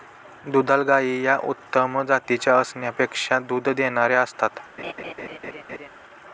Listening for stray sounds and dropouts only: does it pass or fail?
fail